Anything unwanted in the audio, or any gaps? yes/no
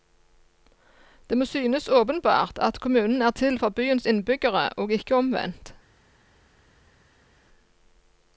no